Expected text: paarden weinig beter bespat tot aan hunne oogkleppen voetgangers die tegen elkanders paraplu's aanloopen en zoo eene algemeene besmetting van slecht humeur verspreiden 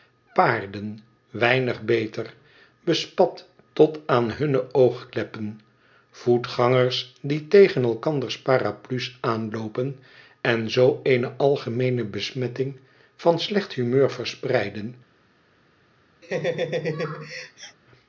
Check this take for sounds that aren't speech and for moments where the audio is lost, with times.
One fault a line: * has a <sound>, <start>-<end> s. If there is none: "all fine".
* has a laugh, 16.2-17.8 s